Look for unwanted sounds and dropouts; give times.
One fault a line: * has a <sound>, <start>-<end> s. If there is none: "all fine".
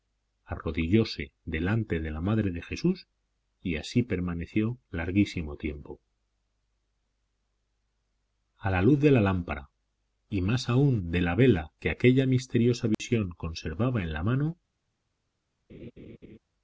* has a dropout, 12.9-13.0 s
* has a laugh, 15.7-16.4 s